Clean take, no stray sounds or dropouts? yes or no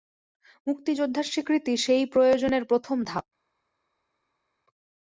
yes